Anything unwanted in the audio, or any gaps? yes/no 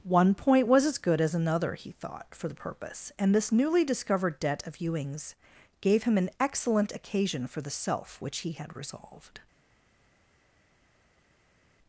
no